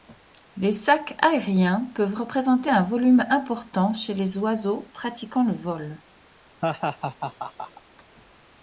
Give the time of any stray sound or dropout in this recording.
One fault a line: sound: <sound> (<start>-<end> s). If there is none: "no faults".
sound: laugh (6.6-7.8 s)